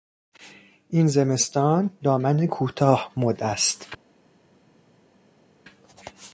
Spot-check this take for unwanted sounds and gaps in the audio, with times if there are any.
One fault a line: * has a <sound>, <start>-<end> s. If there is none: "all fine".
all fine